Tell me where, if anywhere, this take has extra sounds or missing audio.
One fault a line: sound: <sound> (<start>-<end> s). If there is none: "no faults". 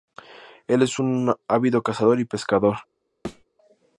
sound: thud (3.2-3.4 s)